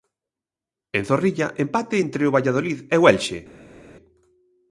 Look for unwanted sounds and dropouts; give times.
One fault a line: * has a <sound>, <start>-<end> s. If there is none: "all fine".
all fine